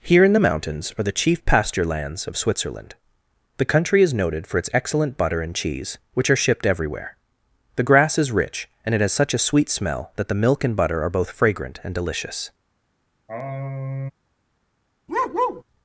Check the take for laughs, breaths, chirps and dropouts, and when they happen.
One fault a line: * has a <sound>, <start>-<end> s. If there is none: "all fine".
* has a sigh, 13.3-14.1 s
* has a bark, 15.1-15.6 s